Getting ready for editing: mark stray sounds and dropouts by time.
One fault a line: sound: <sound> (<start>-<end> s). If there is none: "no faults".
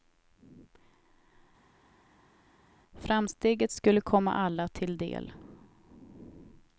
no faults